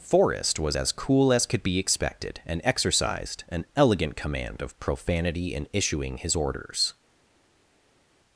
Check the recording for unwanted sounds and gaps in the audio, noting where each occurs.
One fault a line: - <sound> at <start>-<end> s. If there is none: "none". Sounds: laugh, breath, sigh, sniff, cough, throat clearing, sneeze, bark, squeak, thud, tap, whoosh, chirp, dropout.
none